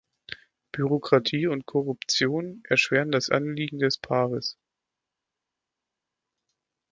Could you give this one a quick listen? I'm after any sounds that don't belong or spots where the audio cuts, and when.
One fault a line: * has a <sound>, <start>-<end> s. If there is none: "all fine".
all fine